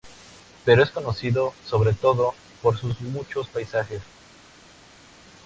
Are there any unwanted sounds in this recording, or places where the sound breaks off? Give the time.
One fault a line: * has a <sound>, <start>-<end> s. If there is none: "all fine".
all fine